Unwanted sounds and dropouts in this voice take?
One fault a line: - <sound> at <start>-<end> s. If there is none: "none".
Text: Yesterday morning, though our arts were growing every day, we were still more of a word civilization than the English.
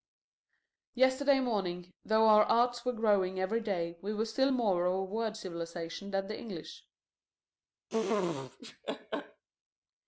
- laugh at 7.9-9.4 s